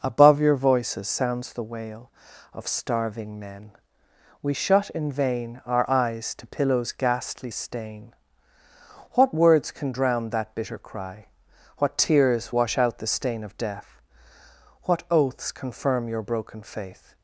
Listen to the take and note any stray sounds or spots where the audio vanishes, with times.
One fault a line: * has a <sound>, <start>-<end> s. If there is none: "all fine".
all fine